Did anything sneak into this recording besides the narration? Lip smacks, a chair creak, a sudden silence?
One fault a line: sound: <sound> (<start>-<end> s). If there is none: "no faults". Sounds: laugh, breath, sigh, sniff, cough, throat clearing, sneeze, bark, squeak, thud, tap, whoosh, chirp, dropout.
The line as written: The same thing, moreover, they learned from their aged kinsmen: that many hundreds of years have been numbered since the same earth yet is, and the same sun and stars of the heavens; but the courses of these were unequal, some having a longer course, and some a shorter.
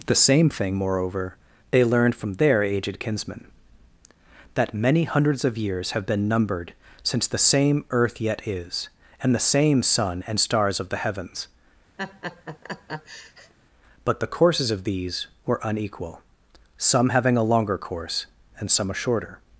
sound: laugh (12.0-13.5 s)